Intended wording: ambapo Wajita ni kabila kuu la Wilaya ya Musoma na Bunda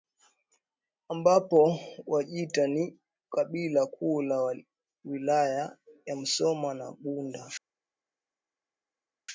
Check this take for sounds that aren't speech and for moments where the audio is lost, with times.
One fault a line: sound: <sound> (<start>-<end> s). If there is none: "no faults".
no faults